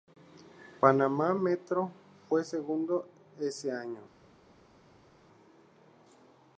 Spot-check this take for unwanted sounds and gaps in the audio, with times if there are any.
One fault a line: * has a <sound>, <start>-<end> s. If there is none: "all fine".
all fine